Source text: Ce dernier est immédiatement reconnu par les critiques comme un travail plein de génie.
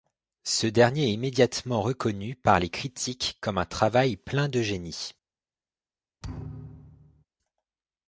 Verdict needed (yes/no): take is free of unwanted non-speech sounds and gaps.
no